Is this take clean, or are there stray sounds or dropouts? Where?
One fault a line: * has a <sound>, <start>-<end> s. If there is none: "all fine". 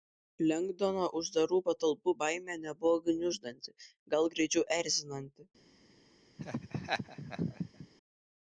* has a laugh, 6.4-7.9 s